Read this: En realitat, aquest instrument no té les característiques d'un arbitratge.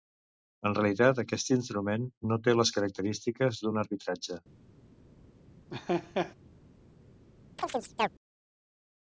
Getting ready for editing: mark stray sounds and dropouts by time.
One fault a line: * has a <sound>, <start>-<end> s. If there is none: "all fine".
* has a laugh, 5.7-6.3 s
* has a chirp, 7.6-8.1 s